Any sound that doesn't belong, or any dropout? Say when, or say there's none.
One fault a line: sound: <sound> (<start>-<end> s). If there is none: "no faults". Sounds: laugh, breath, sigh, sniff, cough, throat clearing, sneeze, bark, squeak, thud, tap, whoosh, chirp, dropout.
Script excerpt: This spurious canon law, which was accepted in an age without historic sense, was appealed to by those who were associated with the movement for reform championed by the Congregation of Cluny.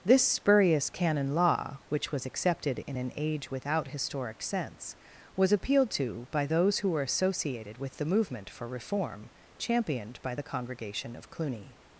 no faults